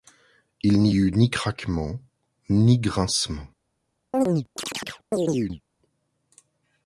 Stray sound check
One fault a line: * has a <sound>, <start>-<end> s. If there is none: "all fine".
* has a chirp, 4.1-5.6 s